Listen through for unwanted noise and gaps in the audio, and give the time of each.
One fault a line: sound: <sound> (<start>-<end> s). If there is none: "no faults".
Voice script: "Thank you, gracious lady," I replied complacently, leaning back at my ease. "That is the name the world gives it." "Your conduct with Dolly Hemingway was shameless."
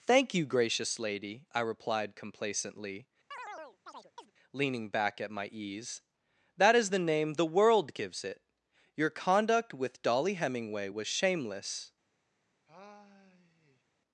sound: chirp (3.3-4.3 s)
sound: sigh (12.7-13.8 s)